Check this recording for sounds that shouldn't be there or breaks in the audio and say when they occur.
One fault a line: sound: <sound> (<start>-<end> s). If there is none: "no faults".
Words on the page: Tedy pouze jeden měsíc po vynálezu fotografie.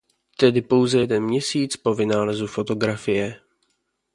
no faults